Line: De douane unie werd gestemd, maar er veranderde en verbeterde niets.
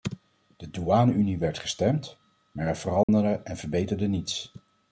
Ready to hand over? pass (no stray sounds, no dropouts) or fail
fail